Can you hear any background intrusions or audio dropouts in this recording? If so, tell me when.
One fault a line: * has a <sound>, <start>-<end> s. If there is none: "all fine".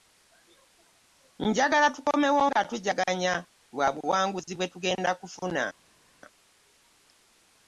all fine